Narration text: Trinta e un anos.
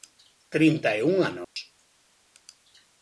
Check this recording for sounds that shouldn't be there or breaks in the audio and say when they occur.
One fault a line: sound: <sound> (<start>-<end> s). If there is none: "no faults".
sound: dropout (1.4-1.6 s)